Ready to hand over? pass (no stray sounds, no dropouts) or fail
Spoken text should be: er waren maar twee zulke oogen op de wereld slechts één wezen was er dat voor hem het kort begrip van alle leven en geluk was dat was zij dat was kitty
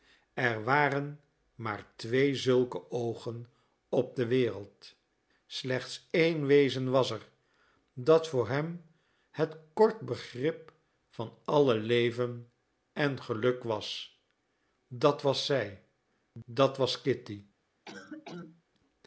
fail